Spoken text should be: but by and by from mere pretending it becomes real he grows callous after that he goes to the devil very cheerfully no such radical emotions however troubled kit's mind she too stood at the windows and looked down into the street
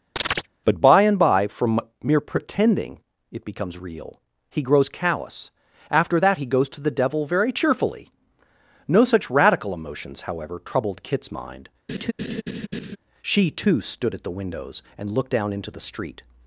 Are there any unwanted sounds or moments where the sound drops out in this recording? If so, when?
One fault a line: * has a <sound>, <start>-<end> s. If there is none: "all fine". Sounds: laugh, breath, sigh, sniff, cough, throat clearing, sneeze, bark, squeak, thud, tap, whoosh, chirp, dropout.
* has a chirp, 0.2-0.5 s
* has a laugh, 11.9-13.0 s